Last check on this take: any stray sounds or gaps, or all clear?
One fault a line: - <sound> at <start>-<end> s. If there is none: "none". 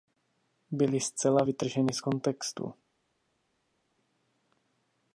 none